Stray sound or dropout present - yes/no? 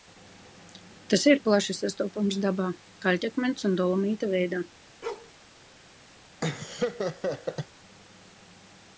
yes